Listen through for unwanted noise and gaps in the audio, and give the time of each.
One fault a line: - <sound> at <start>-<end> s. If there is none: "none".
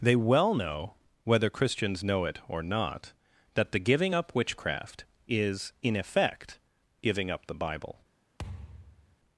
- thud at 8.4-9.2 s